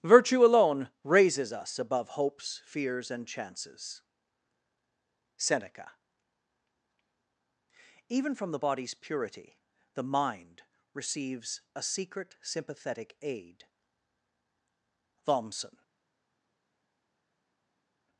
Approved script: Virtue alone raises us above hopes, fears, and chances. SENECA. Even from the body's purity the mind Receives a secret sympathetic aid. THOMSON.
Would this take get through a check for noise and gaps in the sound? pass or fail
pass